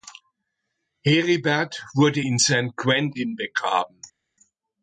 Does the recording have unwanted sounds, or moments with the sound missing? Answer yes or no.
no